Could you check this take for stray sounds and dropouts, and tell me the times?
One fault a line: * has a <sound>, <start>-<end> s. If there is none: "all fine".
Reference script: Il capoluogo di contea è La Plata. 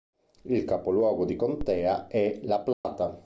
* has a dropout, 2.7-2.8 s